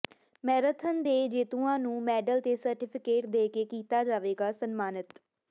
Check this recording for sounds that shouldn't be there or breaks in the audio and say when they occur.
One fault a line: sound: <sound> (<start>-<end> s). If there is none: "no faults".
no faults